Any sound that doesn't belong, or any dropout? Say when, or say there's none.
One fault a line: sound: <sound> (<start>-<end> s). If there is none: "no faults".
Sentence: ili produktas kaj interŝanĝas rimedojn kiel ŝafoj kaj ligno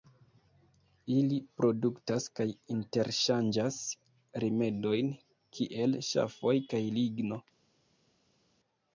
no faults